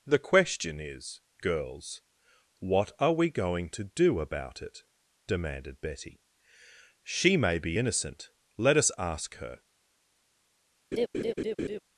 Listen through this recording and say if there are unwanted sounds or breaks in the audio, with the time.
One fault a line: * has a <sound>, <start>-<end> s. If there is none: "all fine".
* has a laugh, 10.9-11.8 s